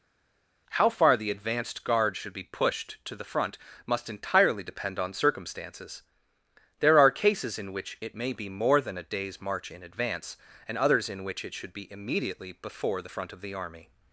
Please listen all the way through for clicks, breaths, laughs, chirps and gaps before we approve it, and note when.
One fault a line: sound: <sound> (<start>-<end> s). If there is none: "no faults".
no faults